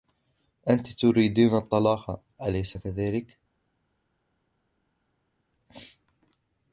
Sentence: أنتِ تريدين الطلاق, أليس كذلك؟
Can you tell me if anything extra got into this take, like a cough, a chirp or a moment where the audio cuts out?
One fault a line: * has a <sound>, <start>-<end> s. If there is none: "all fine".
all fine